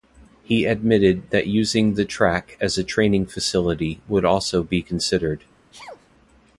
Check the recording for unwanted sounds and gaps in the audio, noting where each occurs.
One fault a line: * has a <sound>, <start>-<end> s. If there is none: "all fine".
* has a sneeze, 5.7-6.1 s